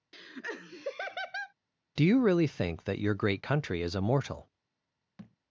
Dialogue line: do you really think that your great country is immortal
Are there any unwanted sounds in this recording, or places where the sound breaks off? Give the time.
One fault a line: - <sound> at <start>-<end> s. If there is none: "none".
- laugh at 0.1-1.5 s
- thud at 5.2-5.4 s